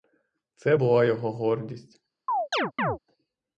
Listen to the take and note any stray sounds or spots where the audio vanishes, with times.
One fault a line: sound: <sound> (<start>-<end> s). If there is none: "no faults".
sound: chirp (2.3-3.0 s)